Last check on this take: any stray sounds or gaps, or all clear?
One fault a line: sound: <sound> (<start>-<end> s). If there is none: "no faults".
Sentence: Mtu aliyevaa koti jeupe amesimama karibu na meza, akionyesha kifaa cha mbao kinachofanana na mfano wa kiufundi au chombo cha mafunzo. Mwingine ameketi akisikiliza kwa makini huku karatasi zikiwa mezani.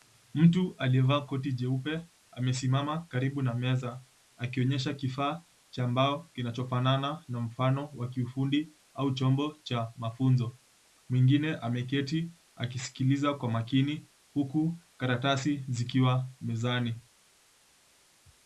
no faults